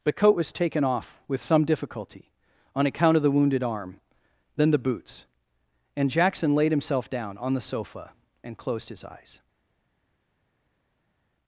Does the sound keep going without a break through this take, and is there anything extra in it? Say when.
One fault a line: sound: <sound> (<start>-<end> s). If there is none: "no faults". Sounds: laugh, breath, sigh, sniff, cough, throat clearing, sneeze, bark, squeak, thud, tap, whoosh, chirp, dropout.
no faults